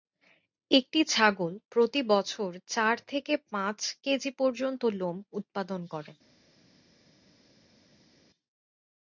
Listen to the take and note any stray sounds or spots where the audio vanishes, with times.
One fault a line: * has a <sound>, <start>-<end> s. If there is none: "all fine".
all fine